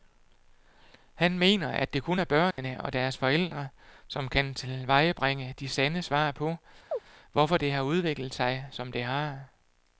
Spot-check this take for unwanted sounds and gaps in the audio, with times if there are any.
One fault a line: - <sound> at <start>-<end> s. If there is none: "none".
- dropout at 2.5-2.6 s
- chirp at 6.9-7.0 s